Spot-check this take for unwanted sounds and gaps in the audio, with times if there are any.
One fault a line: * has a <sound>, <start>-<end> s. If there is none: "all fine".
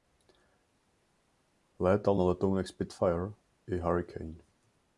all fine